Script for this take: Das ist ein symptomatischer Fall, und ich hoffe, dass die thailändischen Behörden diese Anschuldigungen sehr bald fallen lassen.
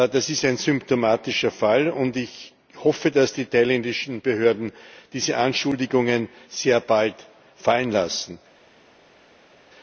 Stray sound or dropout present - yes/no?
no